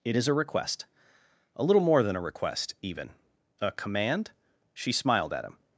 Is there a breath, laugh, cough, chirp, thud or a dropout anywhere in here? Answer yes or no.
no